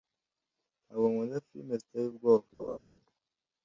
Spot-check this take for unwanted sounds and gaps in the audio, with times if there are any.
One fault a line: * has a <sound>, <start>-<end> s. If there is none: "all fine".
* has a laugh, 2.6-2.8 s